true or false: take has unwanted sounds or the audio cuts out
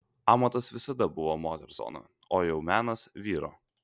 false